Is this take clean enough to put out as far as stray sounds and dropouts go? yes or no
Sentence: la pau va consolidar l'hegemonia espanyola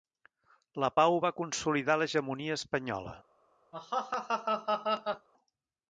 no